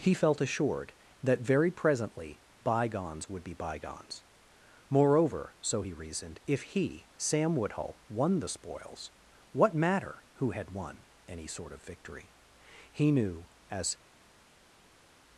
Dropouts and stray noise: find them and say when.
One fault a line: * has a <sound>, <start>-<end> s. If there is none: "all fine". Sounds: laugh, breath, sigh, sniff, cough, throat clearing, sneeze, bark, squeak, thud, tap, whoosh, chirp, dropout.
all fine